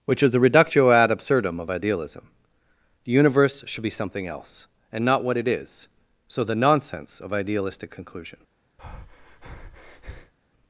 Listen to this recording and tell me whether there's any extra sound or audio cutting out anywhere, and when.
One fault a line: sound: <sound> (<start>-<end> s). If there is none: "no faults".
sound: breath (8.8-10.3 s)